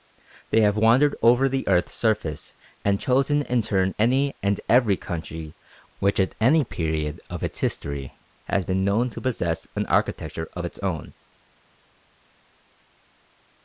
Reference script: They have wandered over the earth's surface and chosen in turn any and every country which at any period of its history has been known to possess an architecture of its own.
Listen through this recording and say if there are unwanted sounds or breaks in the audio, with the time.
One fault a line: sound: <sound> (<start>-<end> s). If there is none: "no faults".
no faults